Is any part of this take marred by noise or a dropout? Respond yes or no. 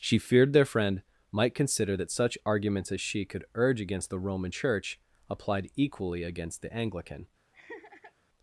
yes